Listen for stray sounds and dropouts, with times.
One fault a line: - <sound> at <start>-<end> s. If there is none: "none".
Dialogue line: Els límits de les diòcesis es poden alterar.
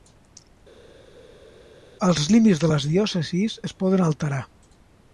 none